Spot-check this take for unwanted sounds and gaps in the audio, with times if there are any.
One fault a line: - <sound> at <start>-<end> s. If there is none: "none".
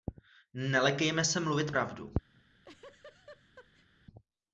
- laugh at 2.3-3.9 s